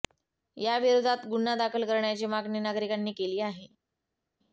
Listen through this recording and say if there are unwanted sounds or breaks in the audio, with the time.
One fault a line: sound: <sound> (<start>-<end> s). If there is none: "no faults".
no faults